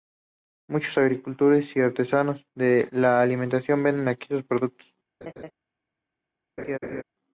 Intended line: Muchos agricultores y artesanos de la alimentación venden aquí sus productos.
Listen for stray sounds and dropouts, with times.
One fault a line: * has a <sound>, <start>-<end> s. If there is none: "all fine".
* has a laugh, 5.2-5.5 s
* has a laugh, 6.6-7.0 s